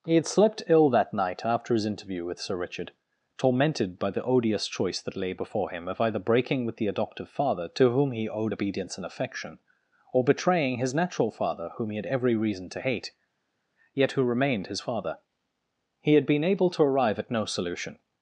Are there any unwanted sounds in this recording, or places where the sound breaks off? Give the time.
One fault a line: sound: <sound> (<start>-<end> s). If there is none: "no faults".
no faults